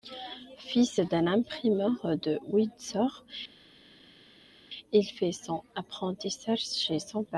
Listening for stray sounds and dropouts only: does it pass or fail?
pass